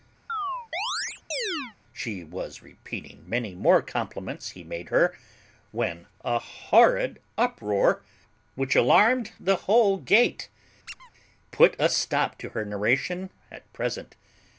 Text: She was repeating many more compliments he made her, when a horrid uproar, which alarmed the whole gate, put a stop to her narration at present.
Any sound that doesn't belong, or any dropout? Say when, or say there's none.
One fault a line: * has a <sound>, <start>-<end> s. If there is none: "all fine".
* has a chirp, 0.3-1.8 s
* has a squeak, 10.9-11.1 s